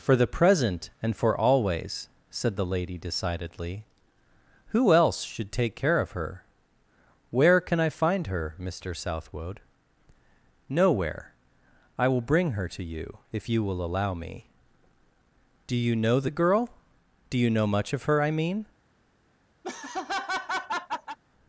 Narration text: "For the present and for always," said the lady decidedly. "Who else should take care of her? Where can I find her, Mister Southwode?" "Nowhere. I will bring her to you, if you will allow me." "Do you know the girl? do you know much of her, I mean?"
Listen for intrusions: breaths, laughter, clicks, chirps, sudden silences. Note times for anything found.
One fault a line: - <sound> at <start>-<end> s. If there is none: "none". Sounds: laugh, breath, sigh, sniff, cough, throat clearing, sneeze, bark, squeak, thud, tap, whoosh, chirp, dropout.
- laugh at 19.6-21.2 s